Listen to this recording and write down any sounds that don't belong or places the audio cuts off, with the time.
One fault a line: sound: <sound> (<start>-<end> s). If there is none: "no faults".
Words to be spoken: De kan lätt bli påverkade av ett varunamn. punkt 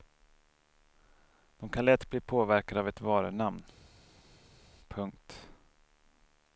no faults